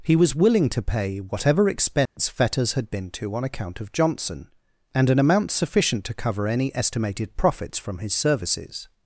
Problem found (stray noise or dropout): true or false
true